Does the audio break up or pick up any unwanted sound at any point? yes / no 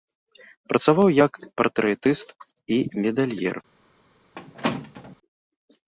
yes